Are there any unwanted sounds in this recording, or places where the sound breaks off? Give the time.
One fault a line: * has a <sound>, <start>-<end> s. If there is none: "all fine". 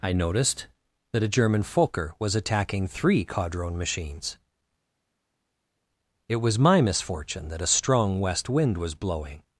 all fine